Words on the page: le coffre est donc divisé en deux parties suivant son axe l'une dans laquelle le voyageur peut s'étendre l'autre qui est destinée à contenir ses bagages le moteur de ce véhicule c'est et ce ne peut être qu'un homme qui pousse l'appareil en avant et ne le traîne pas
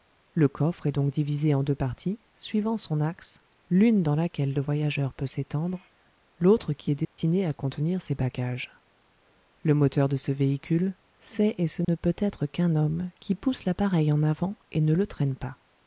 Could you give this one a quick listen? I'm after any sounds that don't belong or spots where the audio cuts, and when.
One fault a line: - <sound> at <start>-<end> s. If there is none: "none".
- dropout at 7.0-7.2 s
- dropout at 11.8-11.9 s